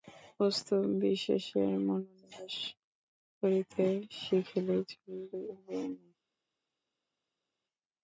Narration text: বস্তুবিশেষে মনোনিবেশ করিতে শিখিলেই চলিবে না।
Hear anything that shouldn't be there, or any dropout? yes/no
no